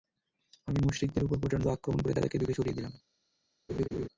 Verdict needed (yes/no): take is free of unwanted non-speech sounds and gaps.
no